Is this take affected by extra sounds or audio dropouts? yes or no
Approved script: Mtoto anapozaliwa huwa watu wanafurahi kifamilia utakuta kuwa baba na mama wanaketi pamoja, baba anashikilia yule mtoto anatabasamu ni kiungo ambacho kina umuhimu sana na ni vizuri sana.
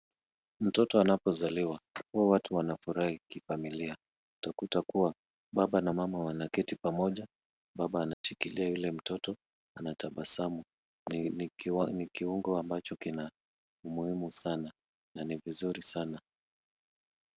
yes